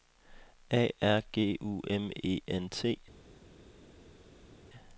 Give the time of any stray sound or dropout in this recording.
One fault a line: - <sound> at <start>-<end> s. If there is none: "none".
none